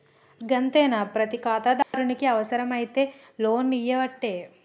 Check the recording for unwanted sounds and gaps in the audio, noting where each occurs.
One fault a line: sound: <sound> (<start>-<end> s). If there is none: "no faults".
sound: dropout (1.8-1.9 s)